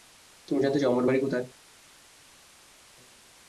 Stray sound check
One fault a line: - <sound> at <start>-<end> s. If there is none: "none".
none